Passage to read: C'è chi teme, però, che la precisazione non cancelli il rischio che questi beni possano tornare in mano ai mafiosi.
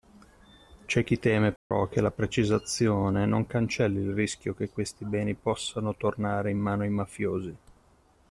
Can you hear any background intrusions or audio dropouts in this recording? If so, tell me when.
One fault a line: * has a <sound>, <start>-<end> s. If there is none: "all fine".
* has a dropout, 1.6-1.7 s